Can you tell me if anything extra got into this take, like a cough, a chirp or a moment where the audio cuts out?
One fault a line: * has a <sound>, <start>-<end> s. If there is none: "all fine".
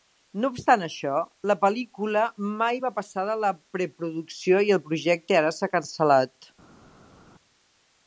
all fine